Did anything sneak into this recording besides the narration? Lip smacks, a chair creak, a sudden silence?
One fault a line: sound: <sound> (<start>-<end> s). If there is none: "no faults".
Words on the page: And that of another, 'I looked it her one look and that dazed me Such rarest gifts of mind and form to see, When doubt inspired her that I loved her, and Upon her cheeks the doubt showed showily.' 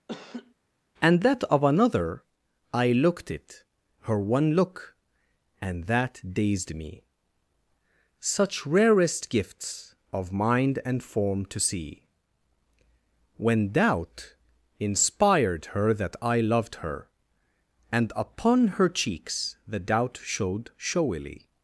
sound: laugh (0.1-0.5 s)